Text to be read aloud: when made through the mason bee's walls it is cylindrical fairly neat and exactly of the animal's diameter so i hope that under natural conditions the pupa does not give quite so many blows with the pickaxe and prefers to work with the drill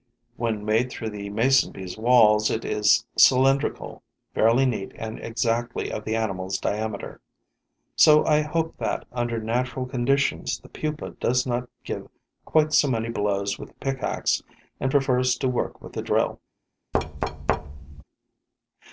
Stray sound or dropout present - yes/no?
yes